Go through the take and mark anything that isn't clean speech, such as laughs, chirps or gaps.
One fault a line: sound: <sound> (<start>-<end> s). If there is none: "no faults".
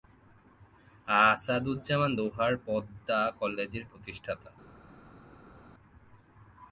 no faults